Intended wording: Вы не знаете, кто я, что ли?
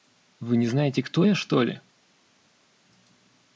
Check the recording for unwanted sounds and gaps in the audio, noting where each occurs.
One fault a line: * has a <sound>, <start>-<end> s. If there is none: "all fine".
all fine